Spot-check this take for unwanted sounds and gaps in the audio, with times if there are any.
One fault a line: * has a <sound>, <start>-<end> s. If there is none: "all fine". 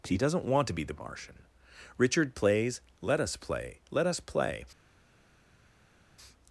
all fine